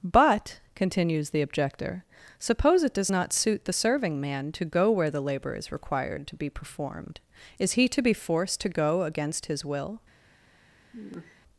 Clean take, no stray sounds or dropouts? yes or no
no